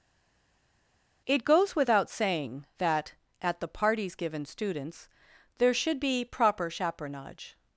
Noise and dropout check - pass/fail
pass